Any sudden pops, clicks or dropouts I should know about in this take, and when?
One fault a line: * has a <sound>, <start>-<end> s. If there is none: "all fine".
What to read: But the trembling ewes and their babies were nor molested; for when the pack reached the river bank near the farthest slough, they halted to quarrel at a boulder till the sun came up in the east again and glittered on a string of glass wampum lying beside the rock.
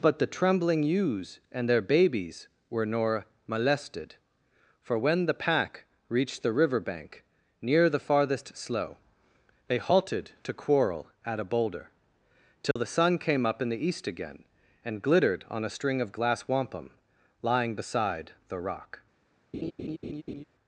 * has a dropout, 12.7-12.8 s
* has a laugh, 19.5-20.4 s